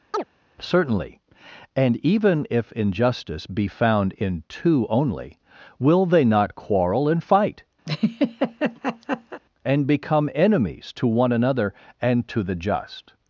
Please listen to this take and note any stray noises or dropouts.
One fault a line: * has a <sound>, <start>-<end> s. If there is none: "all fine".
* has a chirp, 0.1-0.2 s
* has a laugh, 7.9-9.4 s